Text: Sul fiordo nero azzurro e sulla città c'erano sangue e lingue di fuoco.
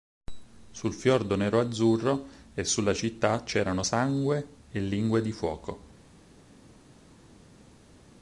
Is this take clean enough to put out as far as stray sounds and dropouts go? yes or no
yes